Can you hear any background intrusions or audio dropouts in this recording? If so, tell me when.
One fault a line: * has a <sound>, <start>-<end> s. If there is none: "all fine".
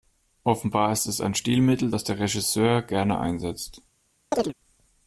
* has a chirp, 4.3-4.5 s